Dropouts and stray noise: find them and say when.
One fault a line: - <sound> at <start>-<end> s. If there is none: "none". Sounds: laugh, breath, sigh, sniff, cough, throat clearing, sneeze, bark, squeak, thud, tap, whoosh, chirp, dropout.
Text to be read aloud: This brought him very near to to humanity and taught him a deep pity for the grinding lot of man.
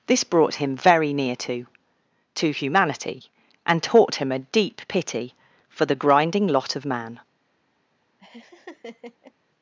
- laugh at 8.2-9.3 s